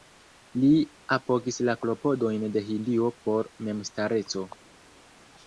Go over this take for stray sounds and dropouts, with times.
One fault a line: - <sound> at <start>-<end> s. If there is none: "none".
none